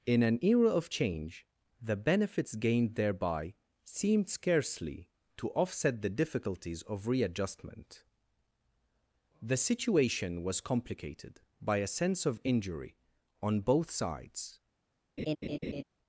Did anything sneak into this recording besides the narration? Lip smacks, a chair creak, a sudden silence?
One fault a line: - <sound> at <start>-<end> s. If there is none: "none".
- laugh at 15.2-15.8 s